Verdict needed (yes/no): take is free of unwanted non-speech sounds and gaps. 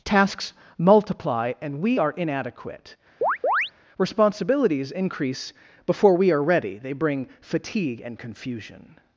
no